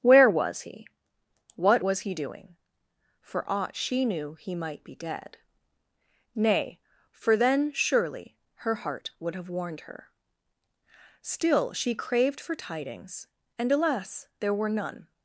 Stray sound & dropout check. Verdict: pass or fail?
pass